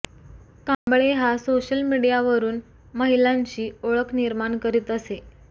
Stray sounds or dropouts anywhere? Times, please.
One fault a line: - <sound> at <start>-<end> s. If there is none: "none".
- dropout at 0.7-0.9 s